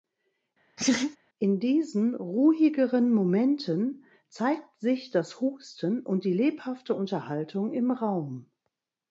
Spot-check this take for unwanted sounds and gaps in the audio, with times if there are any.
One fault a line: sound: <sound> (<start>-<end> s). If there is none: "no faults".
sound: laugh (0.8-1.2 s)